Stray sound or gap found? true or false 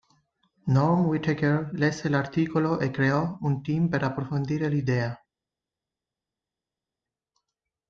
false